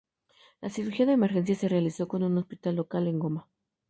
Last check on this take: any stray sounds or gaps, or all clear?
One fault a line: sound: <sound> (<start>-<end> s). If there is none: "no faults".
no faults